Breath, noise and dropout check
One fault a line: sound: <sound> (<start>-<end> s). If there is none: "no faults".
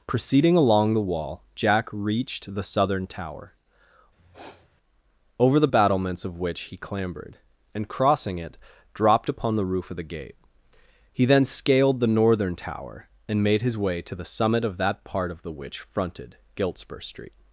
sound: sniff (4.2-4.7 s)